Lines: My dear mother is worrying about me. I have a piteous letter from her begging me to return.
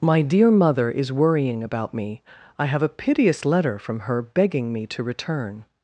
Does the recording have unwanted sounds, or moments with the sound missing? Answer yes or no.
no